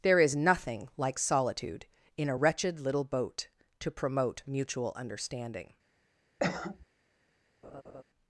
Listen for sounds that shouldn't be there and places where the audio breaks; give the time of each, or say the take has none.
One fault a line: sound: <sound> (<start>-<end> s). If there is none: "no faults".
sound: cough (6.4-6.9 s)
sound: laugh (7.6-8.0 s)